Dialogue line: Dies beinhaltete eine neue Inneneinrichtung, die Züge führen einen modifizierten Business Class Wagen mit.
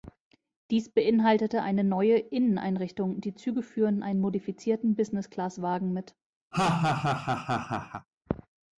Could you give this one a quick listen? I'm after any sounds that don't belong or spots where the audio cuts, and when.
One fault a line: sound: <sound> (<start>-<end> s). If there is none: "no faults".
sound: laugh (6.5-8.1 s)